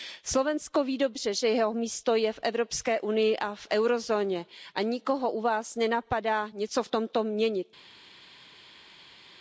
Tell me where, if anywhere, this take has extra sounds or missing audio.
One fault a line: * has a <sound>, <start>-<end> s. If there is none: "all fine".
all fine